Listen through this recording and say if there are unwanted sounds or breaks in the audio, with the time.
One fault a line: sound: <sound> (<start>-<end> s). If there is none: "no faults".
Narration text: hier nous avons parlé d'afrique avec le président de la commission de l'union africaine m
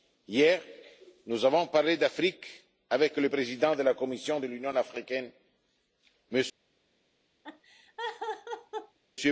sound: laugh (7.4-9.0 s)